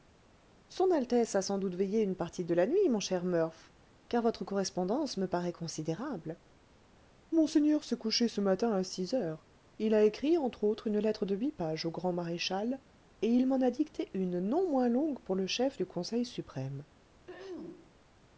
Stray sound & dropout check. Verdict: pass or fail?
fail